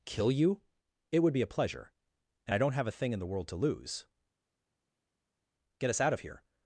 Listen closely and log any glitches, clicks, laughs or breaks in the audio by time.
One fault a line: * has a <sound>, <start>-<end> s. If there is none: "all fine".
all fine